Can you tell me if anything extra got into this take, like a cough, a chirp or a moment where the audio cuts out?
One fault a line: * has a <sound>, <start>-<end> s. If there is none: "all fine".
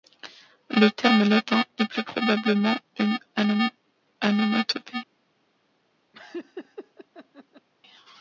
* has a laugh, 6.1-7.7 s